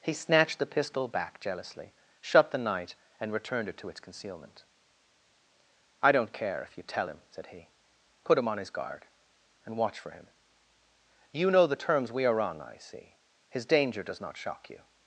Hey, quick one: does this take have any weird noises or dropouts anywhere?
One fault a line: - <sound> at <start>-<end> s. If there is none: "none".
none